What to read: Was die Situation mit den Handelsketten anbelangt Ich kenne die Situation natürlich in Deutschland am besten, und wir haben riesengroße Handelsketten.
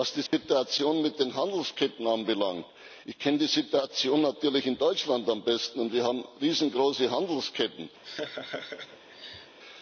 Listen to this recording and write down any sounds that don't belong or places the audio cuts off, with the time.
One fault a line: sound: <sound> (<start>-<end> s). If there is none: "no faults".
sound: dropout (0.3-0.3 s)
sound: laugh (8.0-9.6 s)